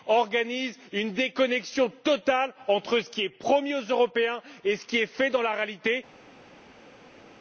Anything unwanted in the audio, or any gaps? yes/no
no